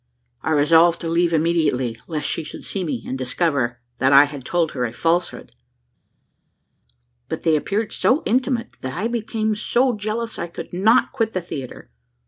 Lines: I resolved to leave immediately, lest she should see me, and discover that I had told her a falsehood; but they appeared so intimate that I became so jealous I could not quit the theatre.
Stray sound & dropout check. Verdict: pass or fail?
pass